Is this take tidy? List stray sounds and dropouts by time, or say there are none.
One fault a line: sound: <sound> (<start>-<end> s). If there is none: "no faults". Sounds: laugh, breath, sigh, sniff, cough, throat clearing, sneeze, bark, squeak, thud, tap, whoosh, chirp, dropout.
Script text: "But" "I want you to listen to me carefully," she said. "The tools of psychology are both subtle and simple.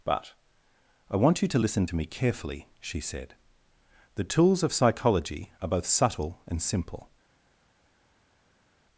no faults